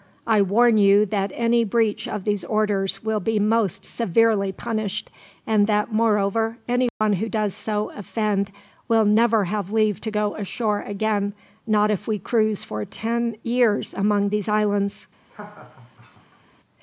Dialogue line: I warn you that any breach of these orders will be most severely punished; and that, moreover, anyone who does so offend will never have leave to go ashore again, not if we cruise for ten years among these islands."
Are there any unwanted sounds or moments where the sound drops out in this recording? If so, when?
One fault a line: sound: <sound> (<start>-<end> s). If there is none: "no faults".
sound: dropout (6.9-7.0 s)
sound: laugh (15.3-16.4 s)